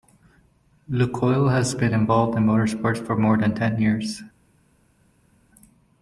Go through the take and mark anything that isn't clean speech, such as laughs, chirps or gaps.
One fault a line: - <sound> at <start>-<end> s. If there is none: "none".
none